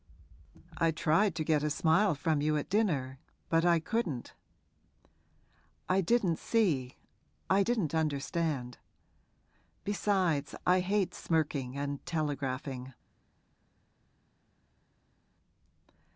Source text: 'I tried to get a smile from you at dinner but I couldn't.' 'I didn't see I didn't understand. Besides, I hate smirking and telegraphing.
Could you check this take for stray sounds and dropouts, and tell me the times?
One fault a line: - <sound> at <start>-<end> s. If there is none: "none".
none